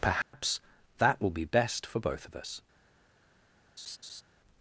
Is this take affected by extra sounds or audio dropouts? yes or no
yes